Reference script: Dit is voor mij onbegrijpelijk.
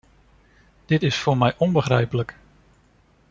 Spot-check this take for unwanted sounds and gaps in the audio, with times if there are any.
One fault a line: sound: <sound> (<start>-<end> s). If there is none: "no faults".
no faults